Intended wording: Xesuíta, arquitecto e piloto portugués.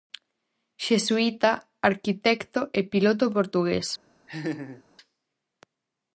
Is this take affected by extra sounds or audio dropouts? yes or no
yes